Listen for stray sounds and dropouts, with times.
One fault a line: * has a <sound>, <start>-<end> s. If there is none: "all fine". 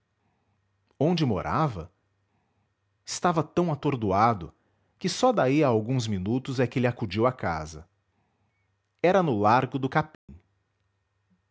* has a dropout, 10.1-10.3 s